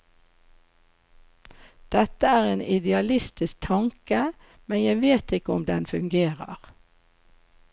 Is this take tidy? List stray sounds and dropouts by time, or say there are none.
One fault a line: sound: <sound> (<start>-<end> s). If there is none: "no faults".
no faults